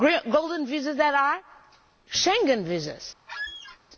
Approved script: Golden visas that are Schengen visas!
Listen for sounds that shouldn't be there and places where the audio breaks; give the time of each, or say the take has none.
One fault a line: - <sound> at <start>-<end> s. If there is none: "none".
- squeak at 3.3-3.8 s